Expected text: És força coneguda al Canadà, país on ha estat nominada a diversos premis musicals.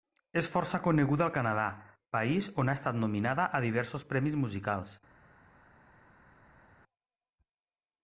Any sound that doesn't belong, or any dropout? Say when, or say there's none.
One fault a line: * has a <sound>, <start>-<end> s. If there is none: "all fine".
all fine